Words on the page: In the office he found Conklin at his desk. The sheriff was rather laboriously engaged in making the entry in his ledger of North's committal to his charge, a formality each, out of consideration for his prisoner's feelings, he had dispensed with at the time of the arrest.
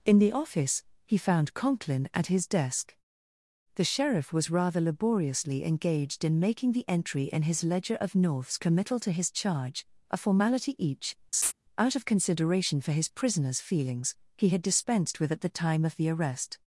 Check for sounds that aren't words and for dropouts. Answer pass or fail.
fail